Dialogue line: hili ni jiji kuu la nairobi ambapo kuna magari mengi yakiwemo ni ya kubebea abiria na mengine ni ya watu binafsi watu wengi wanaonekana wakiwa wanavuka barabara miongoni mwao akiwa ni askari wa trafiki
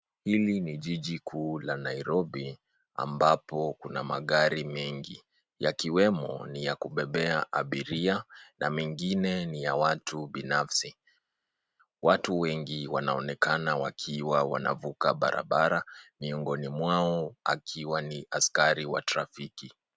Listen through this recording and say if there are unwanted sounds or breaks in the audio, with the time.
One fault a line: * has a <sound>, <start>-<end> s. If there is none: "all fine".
all fine